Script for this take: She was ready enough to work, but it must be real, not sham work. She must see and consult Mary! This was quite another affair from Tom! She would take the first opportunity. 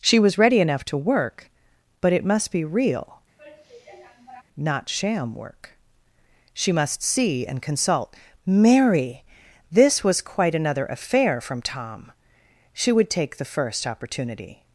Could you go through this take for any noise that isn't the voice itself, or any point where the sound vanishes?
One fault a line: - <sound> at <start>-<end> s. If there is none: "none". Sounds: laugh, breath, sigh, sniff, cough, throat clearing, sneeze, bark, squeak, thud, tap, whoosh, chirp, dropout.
- sigh at 3.4-4.4 s